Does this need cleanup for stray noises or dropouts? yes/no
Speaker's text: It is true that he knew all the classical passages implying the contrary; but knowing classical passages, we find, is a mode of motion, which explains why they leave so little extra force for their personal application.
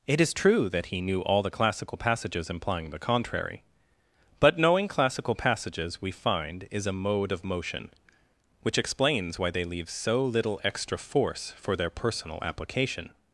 no